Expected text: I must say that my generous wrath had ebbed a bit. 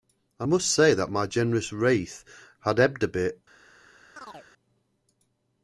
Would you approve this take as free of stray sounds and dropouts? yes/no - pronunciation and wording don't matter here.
no